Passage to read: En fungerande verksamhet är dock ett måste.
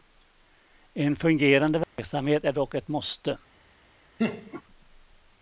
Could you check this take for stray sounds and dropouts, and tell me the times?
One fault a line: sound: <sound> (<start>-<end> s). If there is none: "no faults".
sound: dropout (1.8-2.0 s)
sound: laugh (4.2-4.6 s)